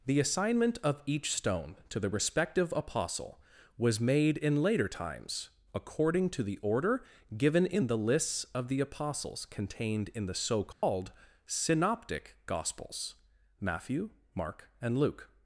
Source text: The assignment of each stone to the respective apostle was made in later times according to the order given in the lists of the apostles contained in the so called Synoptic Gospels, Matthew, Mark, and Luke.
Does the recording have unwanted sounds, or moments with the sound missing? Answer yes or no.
yes